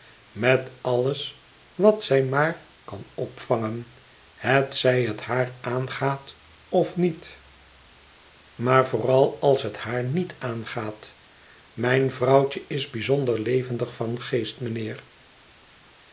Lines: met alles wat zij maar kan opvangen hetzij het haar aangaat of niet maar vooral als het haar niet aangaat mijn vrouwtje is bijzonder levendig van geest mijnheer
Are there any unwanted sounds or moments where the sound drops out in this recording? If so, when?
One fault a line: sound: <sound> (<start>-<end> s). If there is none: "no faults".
no faults